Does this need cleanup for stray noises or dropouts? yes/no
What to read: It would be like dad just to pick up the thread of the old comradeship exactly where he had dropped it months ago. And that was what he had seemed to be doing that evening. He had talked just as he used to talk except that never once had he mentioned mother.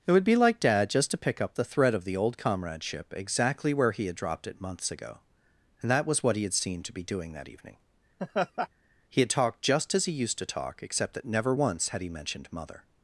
yes